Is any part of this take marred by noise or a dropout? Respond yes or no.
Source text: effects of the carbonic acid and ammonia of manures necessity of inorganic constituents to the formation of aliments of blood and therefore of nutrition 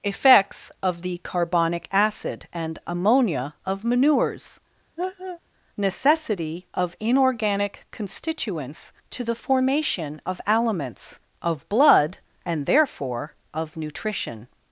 yes